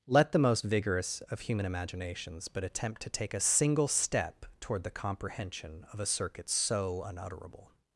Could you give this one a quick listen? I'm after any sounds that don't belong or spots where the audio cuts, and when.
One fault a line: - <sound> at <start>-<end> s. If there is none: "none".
none